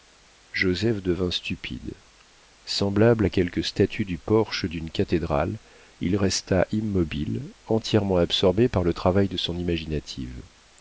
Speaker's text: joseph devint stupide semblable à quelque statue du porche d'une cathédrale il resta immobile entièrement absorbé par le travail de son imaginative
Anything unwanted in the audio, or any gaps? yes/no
no